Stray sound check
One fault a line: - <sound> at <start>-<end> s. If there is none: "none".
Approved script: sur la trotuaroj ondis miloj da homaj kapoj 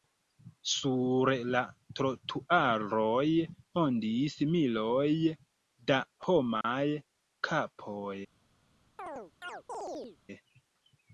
- dropout at 6.6-6.6 s
- chirp at 9.0-10.2 s